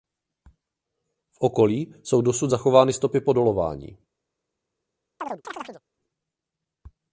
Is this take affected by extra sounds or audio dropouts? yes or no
yes